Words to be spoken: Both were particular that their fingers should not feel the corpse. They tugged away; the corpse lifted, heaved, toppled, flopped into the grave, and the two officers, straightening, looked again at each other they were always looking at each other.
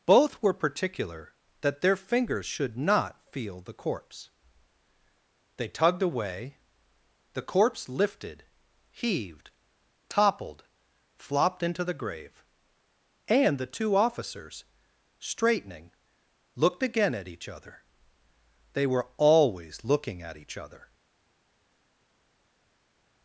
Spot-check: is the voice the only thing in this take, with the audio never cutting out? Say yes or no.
yes